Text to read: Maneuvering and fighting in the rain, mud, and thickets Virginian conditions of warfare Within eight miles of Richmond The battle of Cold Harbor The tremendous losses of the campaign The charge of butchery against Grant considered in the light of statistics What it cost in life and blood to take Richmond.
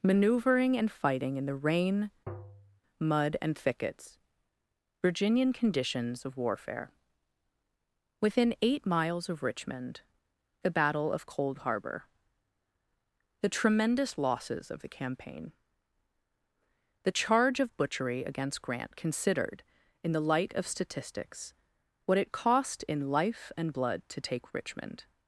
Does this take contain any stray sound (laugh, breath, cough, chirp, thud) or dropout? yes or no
yes